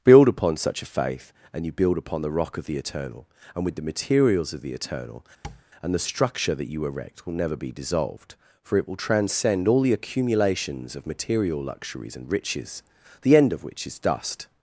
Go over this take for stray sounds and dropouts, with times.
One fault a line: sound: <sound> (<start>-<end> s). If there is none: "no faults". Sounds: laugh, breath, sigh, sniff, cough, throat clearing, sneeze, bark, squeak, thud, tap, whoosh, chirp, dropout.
sound: tap (5.4-5.6 s)